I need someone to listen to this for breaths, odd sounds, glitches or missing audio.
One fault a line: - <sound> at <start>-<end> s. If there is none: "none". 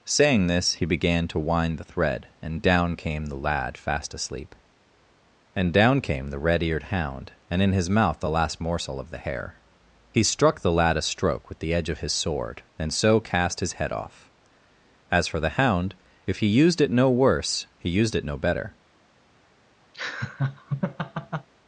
- laugh at 19.9-21.5 s